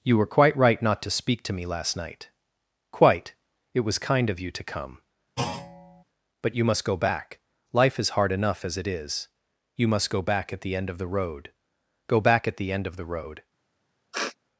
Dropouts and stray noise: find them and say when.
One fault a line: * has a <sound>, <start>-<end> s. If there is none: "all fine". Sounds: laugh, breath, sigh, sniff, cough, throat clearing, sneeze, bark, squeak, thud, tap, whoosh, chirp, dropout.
* has a thud, 5.4-6.0 s
* has a sniff, 14.1-14.4 s